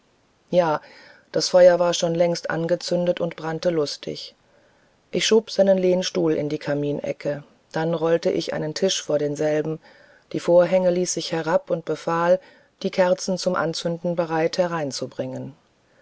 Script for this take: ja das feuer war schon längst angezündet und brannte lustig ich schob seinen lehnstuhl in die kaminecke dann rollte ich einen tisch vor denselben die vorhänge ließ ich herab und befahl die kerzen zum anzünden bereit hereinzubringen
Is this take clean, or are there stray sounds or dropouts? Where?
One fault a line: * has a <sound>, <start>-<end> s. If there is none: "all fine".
all fine